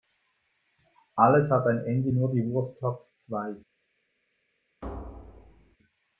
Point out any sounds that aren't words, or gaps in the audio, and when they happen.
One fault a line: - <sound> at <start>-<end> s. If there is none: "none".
- thud at 4.8-5.8 s